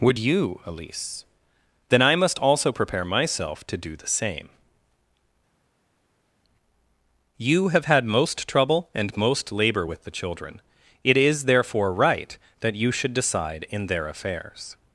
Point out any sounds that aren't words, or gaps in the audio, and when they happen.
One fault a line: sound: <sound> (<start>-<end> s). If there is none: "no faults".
no faults